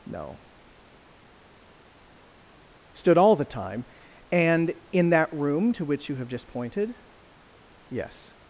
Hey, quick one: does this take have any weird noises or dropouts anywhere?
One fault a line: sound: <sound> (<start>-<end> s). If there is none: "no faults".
no faults